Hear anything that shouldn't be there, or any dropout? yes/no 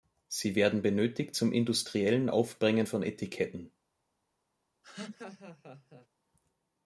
yes